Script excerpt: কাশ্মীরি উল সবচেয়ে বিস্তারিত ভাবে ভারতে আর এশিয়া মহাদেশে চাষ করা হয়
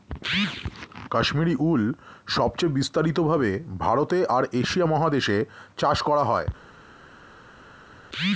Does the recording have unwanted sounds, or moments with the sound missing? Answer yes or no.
no